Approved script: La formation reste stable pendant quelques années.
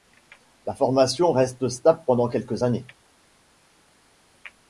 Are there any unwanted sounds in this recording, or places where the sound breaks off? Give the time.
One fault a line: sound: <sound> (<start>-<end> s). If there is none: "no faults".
no faults